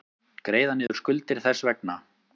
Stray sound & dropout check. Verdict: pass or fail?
fail